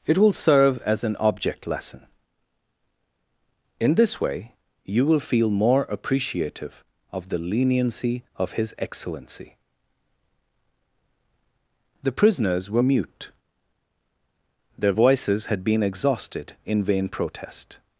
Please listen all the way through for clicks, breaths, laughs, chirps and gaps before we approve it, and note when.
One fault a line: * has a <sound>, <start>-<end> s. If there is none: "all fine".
all fine